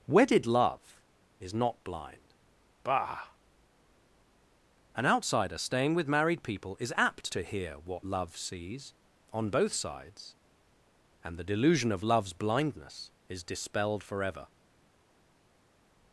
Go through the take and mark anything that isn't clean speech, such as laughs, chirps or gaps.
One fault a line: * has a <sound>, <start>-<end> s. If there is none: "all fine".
all fine